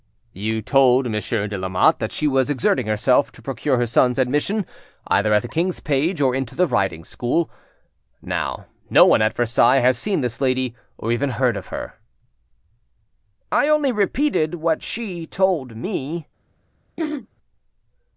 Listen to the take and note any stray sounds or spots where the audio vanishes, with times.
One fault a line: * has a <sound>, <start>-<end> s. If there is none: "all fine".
* has a throat clearing, 17.0-17.3 s